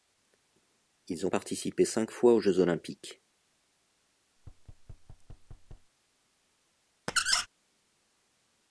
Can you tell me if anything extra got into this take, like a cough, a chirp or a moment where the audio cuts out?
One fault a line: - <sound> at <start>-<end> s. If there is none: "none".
- thud at 4.4-5.9 s
- squeak at 7.1-7.5 s